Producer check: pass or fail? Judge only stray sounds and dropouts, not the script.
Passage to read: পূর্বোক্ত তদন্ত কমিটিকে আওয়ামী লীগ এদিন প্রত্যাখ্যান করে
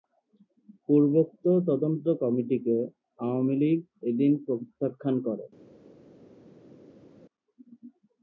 pass